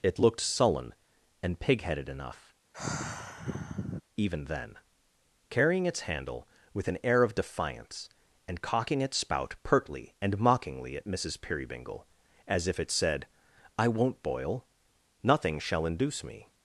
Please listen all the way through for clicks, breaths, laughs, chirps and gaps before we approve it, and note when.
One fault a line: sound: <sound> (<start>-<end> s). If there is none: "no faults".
sound: sigh (2.7-4.0 s)